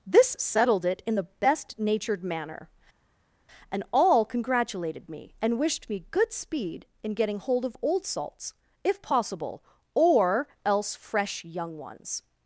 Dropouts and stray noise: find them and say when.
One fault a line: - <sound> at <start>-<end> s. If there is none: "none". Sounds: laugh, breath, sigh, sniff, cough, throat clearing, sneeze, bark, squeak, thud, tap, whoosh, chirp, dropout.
none